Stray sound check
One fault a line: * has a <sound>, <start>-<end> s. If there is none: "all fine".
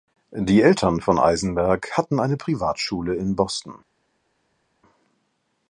all fine